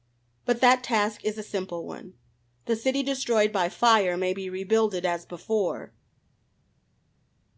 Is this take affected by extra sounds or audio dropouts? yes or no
no